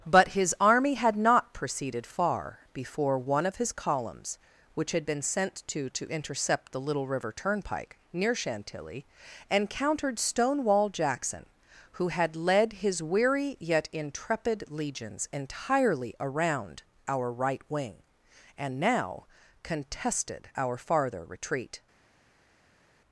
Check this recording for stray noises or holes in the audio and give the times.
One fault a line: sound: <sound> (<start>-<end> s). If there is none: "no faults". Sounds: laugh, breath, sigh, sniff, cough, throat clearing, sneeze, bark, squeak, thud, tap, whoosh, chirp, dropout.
no faults